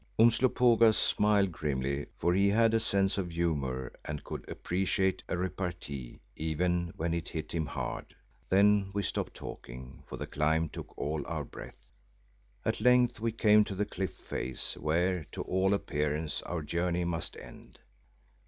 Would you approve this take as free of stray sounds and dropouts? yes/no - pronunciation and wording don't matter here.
yes